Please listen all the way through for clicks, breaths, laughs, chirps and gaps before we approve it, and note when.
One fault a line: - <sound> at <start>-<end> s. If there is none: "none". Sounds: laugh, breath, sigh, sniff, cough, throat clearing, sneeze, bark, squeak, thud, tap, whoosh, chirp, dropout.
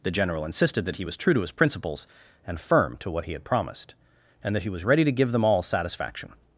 none